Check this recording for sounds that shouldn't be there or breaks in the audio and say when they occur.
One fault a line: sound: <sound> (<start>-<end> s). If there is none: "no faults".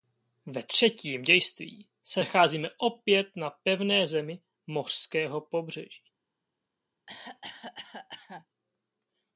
sound: cough (7.1-8.5 s)